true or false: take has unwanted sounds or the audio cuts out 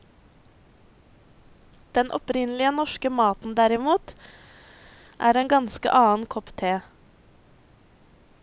false